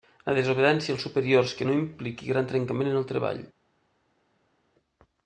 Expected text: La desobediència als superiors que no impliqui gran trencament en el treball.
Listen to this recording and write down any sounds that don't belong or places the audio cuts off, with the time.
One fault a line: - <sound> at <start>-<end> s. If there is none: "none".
none